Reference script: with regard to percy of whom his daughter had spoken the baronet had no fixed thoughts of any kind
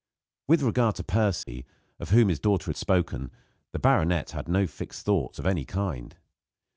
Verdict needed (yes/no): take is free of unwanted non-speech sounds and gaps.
no